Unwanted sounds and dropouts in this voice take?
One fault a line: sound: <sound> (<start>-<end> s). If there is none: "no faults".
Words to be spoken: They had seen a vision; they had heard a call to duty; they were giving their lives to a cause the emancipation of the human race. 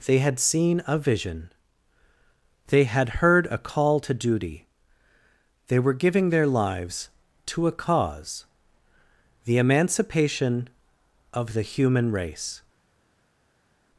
no faults